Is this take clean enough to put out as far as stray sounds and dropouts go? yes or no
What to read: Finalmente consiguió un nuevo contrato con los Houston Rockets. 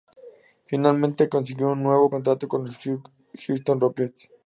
yes